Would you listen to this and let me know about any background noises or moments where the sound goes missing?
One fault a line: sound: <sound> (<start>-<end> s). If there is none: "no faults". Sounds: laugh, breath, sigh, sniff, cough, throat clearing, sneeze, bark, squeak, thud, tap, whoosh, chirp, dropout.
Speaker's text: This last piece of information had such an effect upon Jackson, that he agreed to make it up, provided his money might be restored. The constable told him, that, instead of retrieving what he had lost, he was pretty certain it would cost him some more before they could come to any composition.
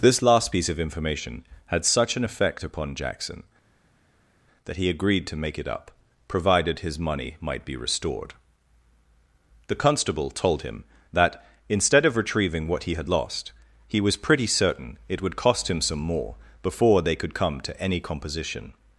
no faults